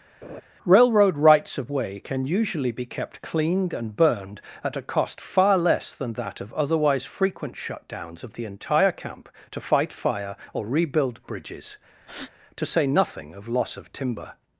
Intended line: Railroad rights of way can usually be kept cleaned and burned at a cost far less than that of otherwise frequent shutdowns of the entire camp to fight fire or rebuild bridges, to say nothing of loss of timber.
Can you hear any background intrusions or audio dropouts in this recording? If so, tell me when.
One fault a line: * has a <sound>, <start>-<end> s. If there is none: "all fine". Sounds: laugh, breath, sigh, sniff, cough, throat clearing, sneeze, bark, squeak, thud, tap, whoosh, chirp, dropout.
* has a laugh, 0.2-0.4 s
* has a breath, 12.0-12.3 s